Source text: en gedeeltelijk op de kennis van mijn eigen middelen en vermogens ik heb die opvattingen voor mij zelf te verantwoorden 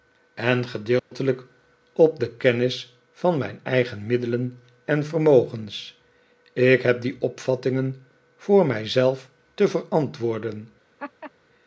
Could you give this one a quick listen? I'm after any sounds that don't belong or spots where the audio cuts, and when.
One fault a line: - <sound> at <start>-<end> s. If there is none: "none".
- dropout at 1.0-1.1 s
- laugh at 11.0-11.3 s